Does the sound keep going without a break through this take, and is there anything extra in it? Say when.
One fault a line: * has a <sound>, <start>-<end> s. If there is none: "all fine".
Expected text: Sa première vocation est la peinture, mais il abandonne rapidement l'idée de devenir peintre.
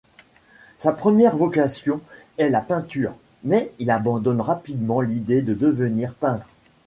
all fine